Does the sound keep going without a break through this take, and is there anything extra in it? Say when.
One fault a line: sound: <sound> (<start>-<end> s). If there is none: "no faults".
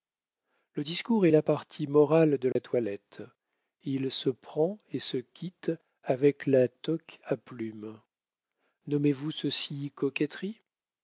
sound: dropout (2.5-2.6 s)